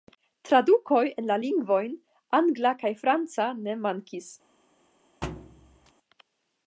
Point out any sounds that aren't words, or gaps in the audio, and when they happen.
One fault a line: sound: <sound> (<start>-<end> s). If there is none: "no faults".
sound: thud (5.2-5.9 s)